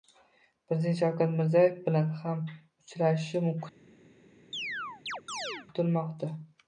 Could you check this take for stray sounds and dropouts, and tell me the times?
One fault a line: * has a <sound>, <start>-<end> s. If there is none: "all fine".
* has a chirp, 4.5-5.7 s